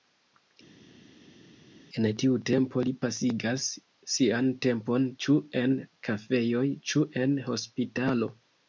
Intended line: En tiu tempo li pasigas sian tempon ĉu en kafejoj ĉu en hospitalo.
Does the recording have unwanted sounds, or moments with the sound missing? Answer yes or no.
no